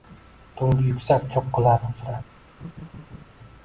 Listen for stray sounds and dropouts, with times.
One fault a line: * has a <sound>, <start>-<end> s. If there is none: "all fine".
* has a laugh, 2.6-3.2 s